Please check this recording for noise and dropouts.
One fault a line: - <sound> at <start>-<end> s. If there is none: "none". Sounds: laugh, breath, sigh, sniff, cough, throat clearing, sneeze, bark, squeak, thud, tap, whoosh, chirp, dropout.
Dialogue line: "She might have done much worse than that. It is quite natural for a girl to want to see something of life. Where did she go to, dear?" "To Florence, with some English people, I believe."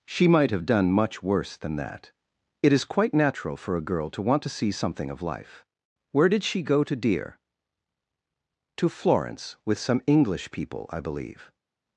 none